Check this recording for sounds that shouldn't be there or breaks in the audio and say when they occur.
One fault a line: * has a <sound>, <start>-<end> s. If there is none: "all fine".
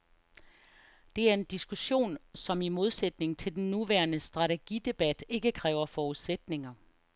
all fine